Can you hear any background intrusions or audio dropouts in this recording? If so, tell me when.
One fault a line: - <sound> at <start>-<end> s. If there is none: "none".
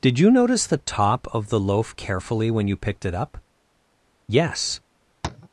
- tap at 5.2-5.5 s